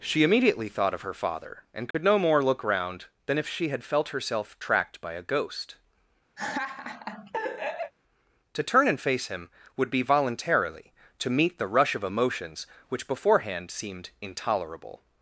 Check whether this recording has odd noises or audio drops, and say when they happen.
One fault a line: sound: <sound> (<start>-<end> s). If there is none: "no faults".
sound: dropout (1.9-1.9 s)
sound: laugh (6.4-7.9 s)